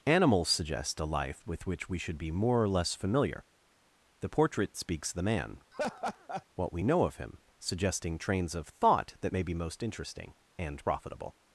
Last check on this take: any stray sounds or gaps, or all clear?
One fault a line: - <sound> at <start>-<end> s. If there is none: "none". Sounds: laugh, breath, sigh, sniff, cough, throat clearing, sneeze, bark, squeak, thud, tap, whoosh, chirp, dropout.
- laugh at 5.7-6.5 s